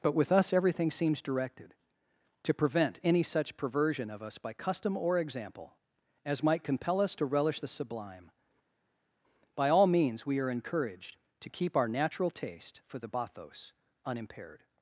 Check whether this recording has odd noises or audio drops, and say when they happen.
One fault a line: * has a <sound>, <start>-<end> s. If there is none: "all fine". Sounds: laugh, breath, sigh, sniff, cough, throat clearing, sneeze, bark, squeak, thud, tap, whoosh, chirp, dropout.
all fine